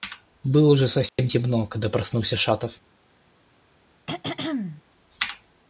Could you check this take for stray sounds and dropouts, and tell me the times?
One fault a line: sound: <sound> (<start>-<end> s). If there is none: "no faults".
sound: dropout (1.1-1.2 s)
sound: throat clearing (4.1-4.8 s)